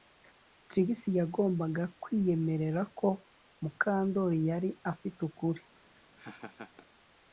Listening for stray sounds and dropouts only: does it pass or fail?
fail